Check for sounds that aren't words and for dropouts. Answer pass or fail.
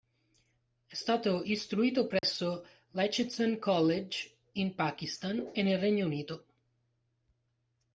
fail